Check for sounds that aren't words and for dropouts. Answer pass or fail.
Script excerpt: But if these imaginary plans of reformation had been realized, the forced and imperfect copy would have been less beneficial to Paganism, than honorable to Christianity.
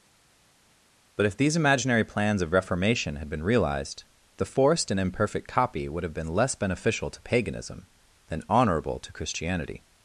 pass